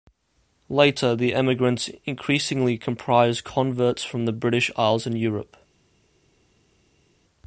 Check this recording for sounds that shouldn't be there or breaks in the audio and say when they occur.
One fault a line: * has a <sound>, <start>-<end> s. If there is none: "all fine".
all fine